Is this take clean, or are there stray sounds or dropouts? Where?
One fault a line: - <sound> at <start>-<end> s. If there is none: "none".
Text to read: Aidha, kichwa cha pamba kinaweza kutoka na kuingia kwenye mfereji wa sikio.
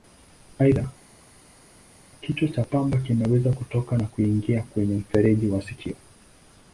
none